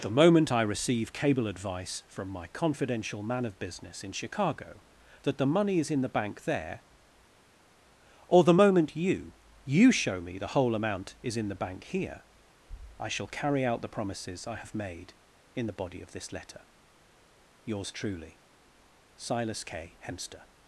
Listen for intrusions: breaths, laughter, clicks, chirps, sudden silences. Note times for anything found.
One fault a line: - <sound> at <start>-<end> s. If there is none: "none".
none